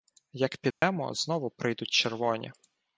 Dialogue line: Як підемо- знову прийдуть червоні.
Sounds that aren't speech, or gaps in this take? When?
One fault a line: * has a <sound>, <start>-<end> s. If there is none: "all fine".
* has a dropout, 0.7-0.8 s